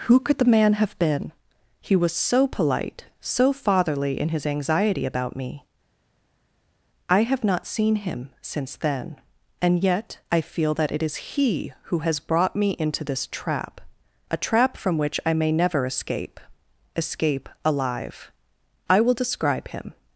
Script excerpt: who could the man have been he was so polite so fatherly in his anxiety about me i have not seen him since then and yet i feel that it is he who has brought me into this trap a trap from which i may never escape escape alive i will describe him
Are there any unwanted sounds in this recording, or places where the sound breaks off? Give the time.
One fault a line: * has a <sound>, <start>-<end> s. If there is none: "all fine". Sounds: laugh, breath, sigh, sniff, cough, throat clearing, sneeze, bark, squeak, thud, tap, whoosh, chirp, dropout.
all fine